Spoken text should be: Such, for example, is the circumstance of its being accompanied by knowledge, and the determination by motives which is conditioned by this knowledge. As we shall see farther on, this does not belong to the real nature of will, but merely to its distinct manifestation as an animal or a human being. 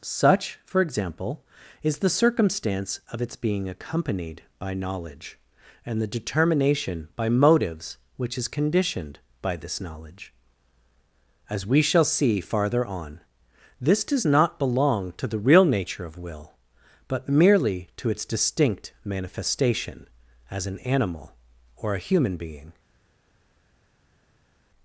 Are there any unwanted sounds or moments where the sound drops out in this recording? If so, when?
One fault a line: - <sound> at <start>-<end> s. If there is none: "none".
none